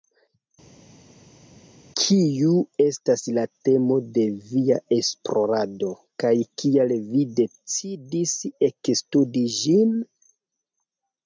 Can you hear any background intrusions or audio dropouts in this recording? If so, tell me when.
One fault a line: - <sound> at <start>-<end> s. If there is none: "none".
none